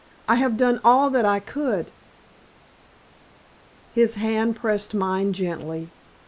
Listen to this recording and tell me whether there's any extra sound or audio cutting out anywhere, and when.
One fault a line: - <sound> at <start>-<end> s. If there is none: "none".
none